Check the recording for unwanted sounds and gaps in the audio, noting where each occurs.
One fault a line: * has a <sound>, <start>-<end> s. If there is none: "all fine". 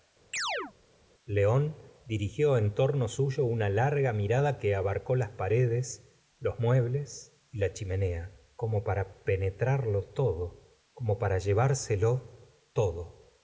* has a chirp, 0.3-0.7 s